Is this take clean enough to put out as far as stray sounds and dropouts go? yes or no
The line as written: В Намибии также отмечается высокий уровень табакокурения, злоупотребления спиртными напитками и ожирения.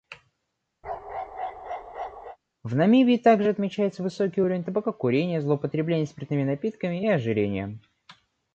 no